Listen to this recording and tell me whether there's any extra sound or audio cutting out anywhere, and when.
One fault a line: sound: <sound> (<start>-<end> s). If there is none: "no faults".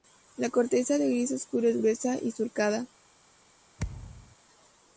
sound: thud (3.8-4.4 s)